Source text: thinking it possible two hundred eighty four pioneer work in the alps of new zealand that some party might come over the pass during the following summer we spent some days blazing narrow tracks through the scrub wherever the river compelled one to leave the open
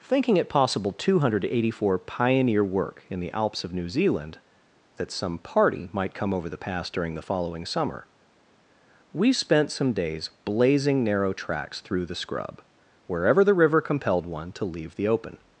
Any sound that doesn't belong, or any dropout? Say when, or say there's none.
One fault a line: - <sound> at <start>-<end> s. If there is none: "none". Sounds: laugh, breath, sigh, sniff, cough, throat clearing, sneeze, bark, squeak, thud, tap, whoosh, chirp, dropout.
none